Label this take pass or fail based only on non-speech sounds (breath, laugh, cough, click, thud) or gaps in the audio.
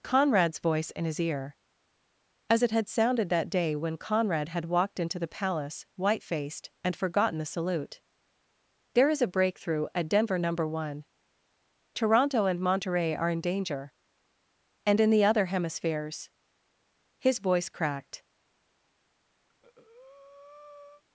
fail